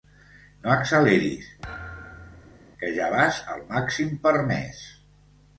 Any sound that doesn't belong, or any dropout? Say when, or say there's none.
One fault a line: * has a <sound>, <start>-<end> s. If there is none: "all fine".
* has a thud, 1.6-2.7 s